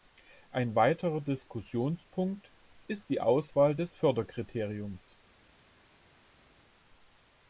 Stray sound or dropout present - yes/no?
no